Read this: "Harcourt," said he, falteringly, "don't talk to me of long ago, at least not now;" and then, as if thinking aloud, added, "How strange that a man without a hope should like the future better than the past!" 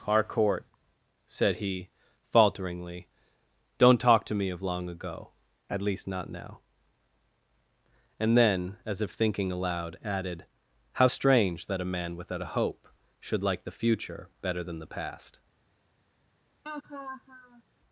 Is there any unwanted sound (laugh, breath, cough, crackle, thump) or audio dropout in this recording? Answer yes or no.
yes